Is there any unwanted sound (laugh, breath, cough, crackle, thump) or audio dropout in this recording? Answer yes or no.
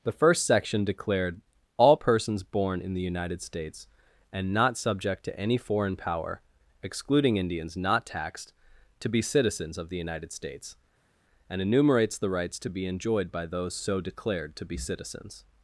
no